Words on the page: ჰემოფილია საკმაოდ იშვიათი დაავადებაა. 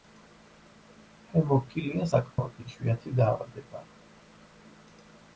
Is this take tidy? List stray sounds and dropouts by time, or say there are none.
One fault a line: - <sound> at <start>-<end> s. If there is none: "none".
- dropout at 2.3-2.4 s